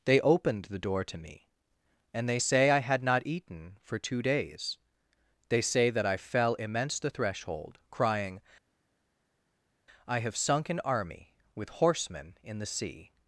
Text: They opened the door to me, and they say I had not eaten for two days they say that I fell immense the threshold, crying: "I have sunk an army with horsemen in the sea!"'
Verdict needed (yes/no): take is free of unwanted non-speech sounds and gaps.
yes